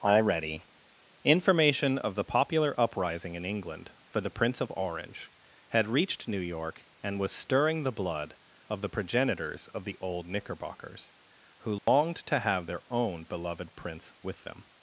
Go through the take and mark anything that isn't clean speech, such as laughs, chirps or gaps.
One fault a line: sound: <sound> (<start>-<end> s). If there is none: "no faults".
sound: dropout (11.8-11.9 s)